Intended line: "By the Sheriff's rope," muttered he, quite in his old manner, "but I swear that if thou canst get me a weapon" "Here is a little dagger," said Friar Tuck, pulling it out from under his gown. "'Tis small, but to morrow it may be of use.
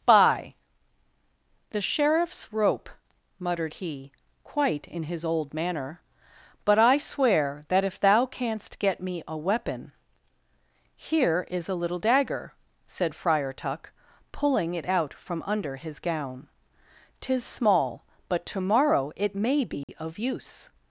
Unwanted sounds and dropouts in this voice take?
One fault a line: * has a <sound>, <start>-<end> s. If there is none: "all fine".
* has a dropout, 19.8-19.9 s